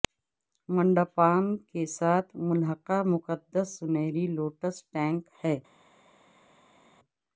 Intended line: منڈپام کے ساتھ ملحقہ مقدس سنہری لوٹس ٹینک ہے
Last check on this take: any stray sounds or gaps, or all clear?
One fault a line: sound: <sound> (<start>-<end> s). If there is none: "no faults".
no faults